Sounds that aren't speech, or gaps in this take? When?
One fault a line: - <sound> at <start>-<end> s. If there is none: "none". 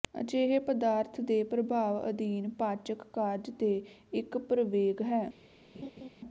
- laugh at 5.7-6.1 s